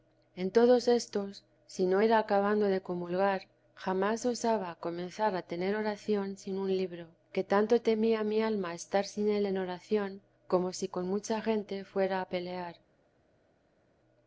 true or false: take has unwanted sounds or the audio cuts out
false